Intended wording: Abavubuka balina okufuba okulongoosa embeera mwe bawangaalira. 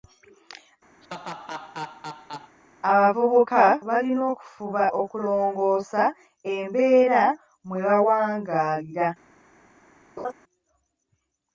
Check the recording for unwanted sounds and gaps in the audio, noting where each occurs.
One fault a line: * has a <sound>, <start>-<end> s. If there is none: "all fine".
* has a laugh, 1.0-2.6 s
* has a laugh, 10.2-10.3 s